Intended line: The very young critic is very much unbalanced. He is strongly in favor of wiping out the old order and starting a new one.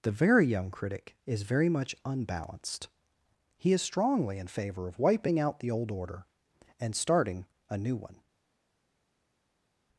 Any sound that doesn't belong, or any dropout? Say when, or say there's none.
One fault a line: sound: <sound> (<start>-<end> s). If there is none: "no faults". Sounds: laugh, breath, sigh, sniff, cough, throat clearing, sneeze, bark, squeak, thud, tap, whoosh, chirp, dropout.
no faults